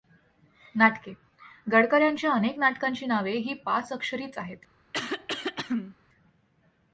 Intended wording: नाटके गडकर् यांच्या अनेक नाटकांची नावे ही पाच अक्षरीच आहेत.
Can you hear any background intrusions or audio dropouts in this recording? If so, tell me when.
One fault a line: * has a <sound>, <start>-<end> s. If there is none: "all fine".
* has a throat clearing, 4.9-6.0 s